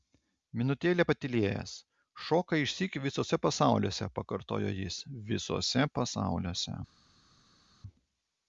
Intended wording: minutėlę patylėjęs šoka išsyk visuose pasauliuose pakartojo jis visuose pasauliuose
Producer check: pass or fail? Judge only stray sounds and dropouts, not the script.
pass